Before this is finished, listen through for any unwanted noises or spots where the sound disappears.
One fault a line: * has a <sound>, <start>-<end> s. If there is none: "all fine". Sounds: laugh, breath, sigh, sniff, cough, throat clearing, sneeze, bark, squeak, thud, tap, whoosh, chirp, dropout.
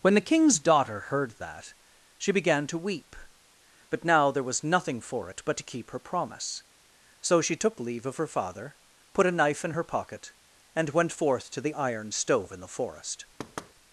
* has a thud, 13.4-13.7 s